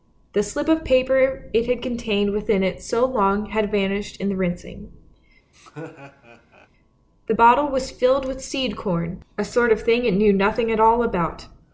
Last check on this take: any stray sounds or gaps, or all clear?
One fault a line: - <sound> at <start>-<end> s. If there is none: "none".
- laugh at 5.5-6.7 s